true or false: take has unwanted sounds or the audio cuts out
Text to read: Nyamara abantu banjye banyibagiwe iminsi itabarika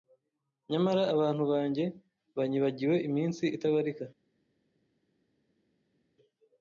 false